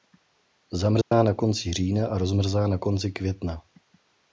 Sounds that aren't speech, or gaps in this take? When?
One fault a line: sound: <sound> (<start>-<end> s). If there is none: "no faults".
sound: dropout (1.0-1.1 s)